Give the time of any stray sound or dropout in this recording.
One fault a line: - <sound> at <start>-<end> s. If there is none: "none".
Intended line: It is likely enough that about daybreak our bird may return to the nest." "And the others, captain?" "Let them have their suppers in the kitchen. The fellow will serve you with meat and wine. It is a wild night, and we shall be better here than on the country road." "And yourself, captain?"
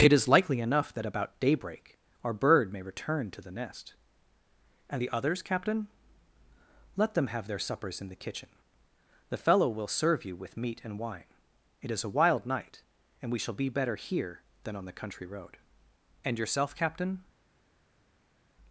none